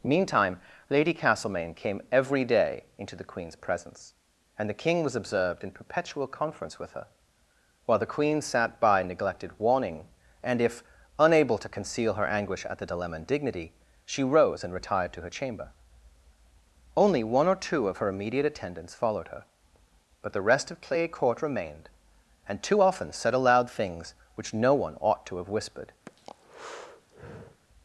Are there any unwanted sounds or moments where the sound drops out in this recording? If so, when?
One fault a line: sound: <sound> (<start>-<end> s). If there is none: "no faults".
sound: breath (26.1-27.6 s)